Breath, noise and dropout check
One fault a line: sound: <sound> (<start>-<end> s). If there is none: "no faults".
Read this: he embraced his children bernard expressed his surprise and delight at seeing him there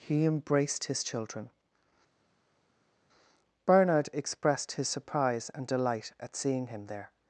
no faults